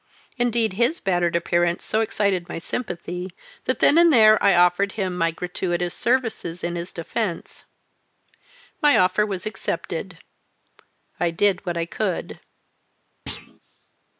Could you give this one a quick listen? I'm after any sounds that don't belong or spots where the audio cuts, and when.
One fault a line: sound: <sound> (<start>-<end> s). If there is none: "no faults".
sound: thud (13.3-13.6 s)